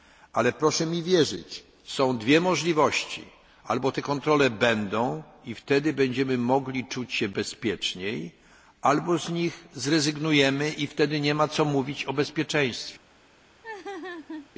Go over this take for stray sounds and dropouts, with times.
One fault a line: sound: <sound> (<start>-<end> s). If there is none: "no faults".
sound: laugh (13.6-14.5 s)